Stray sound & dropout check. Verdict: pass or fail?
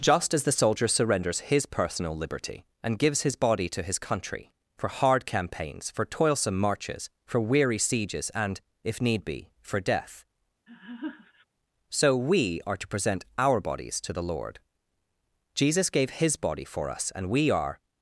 fail